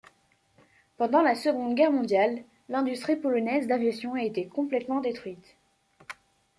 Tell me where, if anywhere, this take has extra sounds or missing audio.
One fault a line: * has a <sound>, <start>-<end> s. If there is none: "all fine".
all fine